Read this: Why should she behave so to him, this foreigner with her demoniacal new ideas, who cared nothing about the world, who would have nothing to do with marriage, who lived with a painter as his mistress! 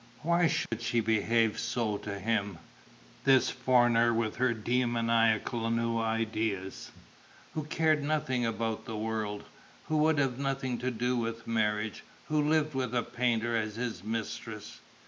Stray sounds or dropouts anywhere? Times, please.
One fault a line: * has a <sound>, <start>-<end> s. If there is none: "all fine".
* has a dropout, 0.7-0.7 s